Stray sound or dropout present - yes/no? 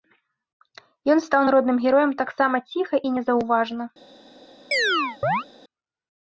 yes